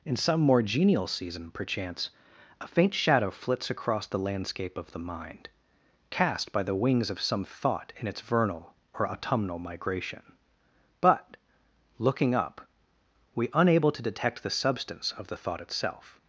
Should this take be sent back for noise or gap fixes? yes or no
no